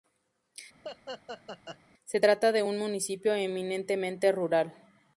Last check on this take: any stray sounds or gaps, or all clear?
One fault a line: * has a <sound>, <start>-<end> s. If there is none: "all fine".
* has a laugh, 0.8-1.8 s